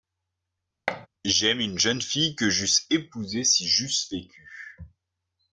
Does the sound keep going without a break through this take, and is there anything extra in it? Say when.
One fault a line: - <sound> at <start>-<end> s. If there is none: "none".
- thud at 0.9-1.1 s